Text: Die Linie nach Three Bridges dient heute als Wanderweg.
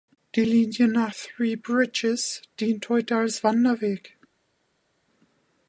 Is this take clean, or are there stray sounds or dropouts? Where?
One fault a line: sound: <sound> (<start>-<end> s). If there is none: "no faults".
no faults